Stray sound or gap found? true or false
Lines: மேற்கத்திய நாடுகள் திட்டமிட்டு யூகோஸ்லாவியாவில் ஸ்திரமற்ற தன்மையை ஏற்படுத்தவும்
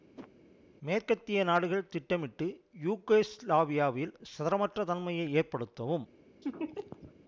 true